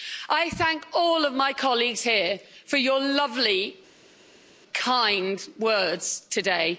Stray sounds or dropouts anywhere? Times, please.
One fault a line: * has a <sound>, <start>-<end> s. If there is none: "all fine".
all fine